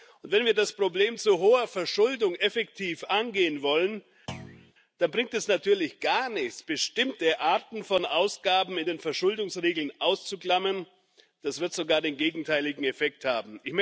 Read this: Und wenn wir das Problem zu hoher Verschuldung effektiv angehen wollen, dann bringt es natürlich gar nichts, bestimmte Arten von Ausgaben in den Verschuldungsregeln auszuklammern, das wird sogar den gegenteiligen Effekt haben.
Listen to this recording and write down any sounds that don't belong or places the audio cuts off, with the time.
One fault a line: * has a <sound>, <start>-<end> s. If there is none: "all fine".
* has a thud, 4.3-4.7 s